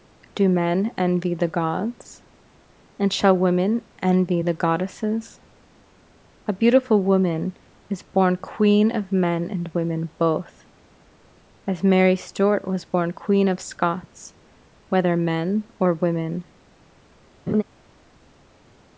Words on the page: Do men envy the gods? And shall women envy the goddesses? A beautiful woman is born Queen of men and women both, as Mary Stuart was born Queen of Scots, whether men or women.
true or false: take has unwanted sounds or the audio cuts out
true